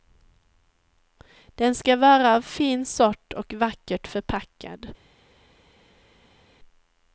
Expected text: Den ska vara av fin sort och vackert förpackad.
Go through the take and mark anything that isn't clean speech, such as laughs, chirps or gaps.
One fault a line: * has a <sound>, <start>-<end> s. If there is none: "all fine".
all fine